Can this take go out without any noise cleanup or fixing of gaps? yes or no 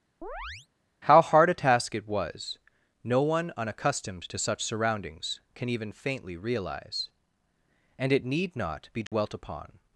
no